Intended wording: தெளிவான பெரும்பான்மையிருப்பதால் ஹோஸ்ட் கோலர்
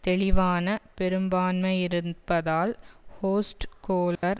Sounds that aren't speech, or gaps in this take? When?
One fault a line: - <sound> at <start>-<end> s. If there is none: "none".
- dropout at 4.1-4.2 s